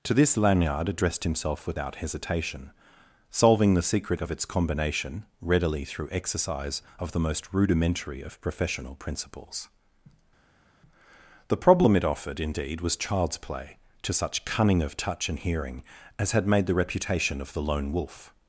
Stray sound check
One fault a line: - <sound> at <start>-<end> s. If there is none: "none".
none